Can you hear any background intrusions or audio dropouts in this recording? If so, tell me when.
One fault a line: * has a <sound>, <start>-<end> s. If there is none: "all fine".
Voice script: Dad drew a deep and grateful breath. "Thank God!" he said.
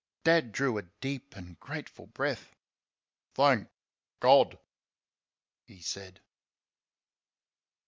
all fine